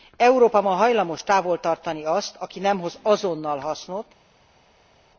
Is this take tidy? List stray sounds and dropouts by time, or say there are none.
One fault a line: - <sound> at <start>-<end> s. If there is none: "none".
none